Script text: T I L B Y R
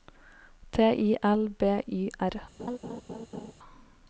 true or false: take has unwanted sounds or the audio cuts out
true